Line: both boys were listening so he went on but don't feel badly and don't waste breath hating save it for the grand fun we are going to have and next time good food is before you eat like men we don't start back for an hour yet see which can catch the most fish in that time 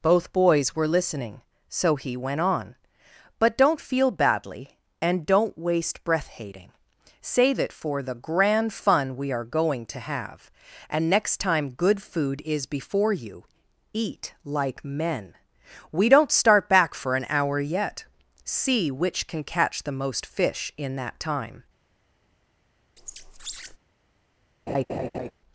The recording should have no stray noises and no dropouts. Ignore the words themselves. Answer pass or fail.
fail